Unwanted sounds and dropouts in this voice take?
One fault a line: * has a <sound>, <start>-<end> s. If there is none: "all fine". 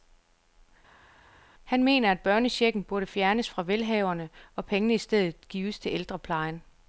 all fine